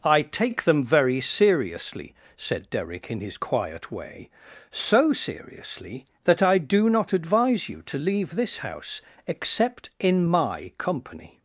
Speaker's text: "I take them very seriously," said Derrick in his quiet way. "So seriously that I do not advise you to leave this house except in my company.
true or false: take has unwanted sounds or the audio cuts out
false